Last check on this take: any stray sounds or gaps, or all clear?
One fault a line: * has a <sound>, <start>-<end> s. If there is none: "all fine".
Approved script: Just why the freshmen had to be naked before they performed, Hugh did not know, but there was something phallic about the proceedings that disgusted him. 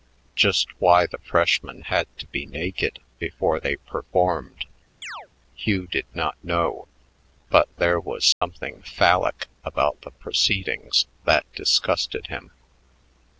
* has a chirp, 5.0-5.3 s
* has a dropout, 8.3-8.4 s